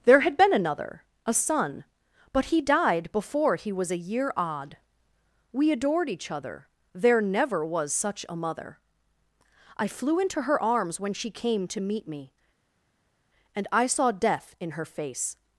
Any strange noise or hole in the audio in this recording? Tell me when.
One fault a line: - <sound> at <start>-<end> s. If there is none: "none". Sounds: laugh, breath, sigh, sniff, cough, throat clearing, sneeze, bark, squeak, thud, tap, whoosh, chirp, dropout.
none